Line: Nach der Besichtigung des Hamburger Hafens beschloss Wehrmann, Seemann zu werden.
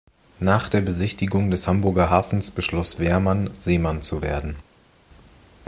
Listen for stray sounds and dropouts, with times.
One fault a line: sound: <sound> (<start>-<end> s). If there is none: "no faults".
no faults